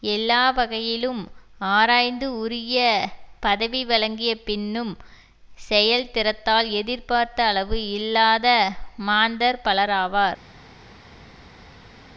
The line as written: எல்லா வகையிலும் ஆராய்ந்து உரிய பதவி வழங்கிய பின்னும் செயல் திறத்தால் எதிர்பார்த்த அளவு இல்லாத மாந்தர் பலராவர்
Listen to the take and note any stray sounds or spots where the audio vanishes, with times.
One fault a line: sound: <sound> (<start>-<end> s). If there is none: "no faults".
no faults